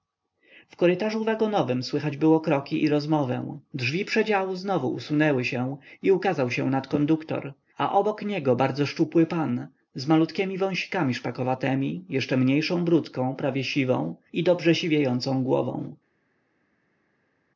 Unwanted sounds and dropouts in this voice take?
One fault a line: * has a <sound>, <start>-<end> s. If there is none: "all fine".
all fine